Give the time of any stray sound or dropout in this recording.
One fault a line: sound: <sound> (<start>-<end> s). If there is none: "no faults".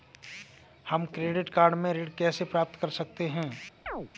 sound: chirp (3.9-4.1 s)